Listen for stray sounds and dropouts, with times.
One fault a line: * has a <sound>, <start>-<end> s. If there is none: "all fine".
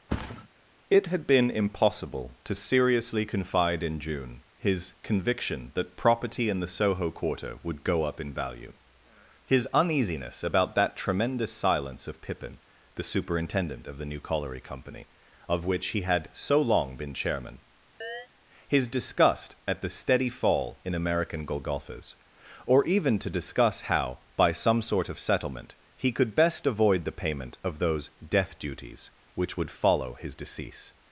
* has a thud, 0.1-0.5 s
* has a chirp, 18.0-18.3 s